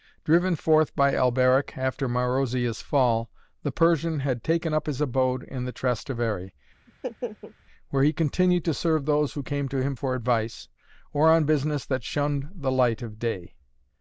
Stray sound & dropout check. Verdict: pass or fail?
fail